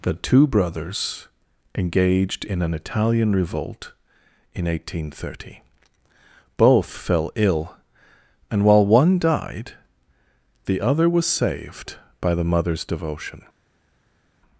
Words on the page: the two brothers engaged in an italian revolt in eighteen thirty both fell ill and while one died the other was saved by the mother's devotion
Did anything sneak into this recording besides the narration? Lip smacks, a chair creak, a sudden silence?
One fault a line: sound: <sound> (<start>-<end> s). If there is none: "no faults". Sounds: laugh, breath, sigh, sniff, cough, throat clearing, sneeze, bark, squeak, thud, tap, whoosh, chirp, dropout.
no faults